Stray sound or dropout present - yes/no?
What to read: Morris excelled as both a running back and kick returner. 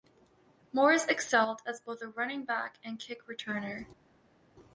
no